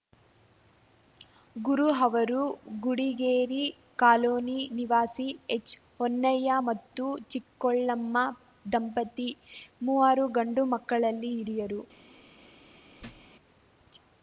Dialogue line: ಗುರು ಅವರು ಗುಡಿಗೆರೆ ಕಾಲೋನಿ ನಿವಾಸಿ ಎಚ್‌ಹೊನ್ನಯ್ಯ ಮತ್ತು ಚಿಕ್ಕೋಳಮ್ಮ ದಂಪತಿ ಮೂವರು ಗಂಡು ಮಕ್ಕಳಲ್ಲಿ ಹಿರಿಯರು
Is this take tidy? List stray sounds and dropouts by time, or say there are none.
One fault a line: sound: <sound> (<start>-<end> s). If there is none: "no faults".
sound: thud (13.0-13.3 s)